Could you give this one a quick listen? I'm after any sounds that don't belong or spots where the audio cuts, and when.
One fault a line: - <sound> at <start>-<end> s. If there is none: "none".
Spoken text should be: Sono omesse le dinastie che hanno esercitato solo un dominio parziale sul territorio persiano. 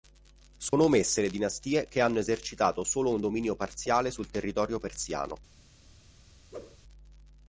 - dropout at 0.7-0.7 s
- whoosh at 6.5-6.8 s